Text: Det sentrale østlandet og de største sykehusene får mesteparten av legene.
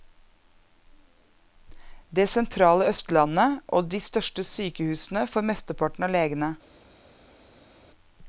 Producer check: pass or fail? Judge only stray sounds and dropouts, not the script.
pass